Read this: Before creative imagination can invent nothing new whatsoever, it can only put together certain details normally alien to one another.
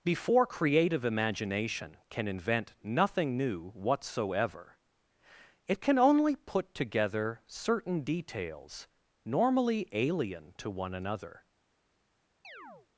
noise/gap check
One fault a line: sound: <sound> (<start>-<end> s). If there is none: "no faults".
sound: chirp (12.4-12.9 s)